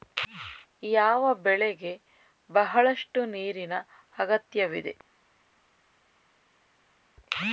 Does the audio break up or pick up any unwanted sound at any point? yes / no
no